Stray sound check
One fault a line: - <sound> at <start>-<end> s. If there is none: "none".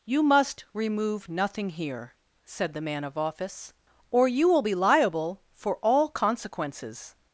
none